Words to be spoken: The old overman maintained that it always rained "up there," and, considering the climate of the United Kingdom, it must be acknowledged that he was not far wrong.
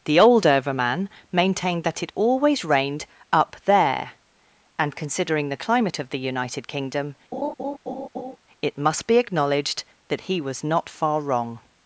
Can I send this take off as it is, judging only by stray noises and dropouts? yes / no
no